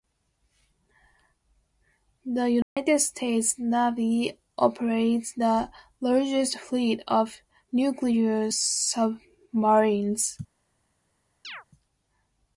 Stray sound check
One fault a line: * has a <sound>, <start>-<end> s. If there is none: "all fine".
* has a dropout, 2.6-2.8 s
* has a chirp, 11.4-11.6 s